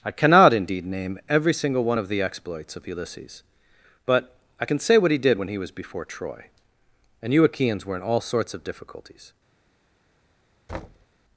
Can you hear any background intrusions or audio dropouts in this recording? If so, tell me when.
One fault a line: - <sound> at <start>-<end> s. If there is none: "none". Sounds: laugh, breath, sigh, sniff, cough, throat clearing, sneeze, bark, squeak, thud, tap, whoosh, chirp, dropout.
- thud at 10.7-11.1 s